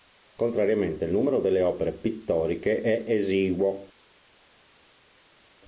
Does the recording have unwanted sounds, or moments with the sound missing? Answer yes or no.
no